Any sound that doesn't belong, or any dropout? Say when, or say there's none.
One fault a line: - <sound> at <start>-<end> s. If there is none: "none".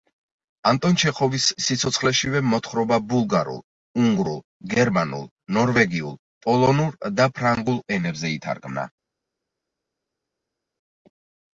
none